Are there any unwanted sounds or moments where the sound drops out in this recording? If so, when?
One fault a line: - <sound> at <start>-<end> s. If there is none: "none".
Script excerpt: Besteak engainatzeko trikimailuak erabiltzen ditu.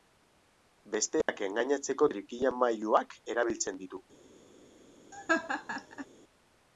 - dropout at 1.2-1.3 s
- laugh at 5.1-6.1 s